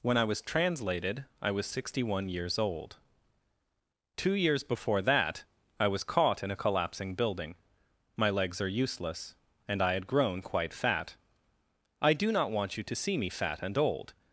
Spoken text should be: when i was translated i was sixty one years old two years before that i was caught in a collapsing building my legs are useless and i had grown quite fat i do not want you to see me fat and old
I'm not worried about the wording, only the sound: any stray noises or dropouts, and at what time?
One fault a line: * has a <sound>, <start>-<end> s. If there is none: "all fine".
all fine